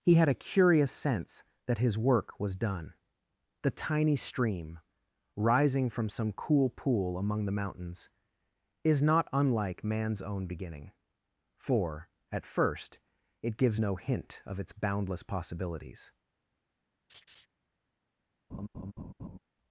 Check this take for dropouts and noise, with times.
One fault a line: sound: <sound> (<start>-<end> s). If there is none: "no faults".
sound: laugh (17.1-17.5 s)
sound: laugh (18.5-19.4 s)